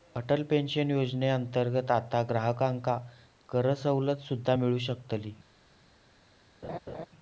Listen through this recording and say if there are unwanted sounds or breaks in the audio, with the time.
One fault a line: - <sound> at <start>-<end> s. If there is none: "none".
- laugh at 6.6-7.1 s